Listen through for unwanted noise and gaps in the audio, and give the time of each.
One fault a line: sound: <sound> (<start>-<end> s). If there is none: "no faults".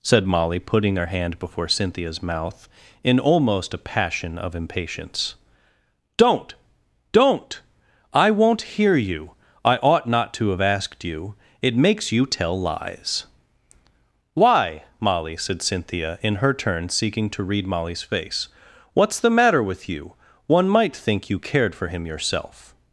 no faults